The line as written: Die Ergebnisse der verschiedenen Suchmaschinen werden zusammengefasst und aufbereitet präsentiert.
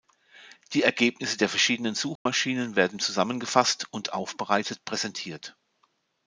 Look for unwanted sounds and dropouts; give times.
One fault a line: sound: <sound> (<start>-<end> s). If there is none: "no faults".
sound: dropout (2.2-2.3 s)